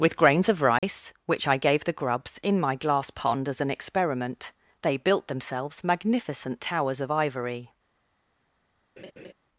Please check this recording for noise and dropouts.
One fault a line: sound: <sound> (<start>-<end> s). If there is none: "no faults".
sound: dropout (0.8-0.8 s)
sound: laugh (9.0-9.3 s)